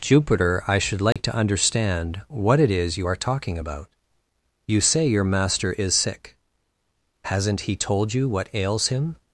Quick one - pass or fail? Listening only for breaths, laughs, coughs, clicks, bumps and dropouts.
fail